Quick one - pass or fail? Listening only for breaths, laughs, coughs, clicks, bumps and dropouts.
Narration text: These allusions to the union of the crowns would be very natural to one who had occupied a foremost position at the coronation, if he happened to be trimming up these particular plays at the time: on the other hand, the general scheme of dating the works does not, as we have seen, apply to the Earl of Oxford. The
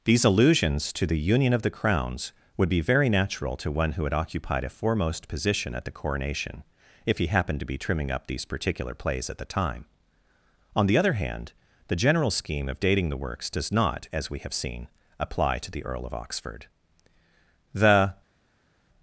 pass